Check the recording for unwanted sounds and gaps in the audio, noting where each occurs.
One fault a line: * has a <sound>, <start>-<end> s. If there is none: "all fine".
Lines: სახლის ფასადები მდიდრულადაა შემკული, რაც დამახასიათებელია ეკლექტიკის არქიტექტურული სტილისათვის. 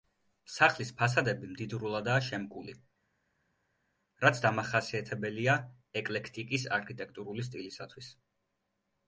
all fine